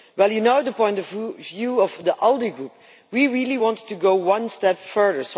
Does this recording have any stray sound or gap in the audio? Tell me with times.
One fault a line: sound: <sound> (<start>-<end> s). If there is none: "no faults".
no faults